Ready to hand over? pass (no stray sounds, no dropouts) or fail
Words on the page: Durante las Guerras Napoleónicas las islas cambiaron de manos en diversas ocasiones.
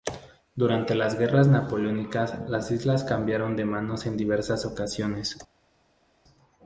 pass